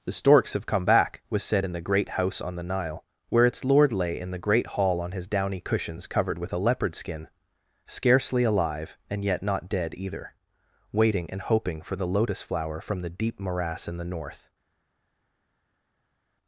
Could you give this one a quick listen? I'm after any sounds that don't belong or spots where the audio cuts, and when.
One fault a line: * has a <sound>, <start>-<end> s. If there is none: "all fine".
all fine